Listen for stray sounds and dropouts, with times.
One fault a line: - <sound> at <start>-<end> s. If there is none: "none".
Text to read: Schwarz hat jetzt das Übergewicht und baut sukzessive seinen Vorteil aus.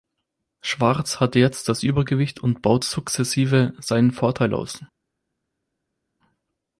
none